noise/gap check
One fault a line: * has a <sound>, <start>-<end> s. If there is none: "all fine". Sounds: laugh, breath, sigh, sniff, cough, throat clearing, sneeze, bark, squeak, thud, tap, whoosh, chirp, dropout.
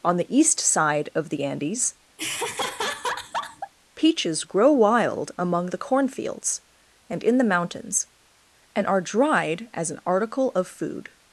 * has a laugh, 2.2-3.7 s